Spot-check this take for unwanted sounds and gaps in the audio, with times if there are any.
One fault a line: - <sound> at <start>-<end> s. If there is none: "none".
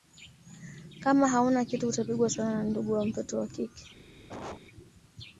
- cough at 4.3-4.6 s